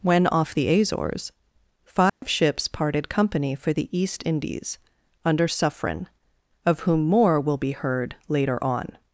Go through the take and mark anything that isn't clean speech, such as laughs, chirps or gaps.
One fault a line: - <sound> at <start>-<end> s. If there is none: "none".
- dropout at 2.1-2.2 s